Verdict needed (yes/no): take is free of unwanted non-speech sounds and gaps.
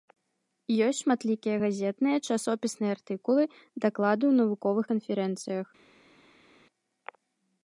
yes